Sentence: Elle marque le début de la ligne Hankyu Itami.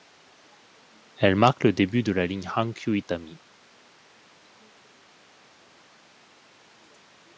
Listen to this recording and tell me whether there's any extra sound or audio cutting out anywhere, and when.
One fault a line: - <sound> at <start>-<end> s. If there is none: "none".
none